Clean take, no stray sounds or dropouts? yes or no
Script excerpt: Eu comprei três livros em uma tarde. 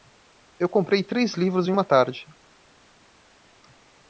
yes